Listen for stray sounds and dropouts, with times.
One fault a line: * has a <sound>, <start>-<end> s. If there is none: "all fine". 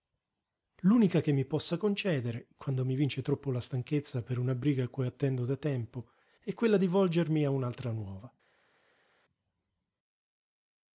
all fine